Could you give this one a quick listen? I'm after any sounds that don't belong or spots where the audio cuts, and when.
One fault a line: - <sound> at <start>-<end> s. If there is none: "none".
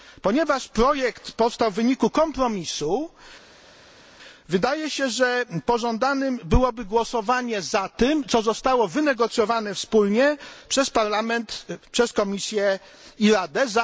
none